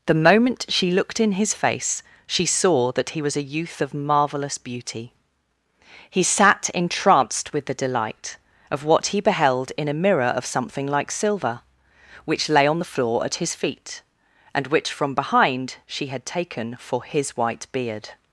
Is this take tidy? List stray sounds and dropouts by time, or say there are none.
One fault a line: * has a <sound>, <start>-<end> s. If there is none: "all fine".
all fine